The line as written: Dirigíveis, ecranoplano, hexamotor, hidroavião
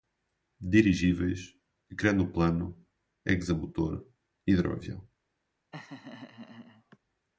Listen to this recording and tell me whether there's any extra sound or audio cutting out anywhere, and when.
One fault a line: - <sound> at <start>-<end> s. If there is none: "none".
- laugh at 5.7-7.0 s